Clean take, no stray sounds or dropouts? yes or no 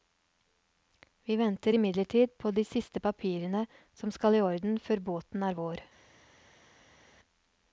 yes